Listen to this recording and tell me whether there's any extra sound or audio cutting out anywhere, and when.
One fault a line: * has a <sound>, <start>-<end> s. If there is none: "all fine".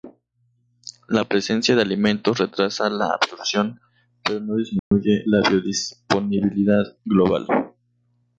* has a dropout, 4.8-4.9 s